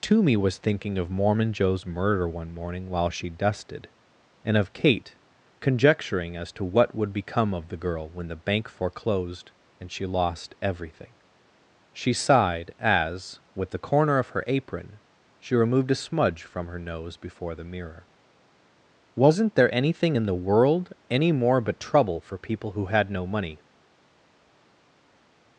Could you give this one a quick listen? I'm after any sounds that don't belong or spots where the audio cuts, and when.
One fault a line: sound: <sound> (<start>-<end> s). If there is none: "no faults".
no faults